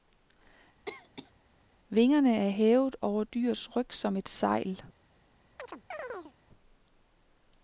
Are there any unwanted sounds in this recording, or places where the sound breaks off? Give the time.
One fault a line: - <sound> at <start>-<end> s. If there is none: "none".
- cough at 0.9-1.3 s
- chirp at 5.6-6.3 s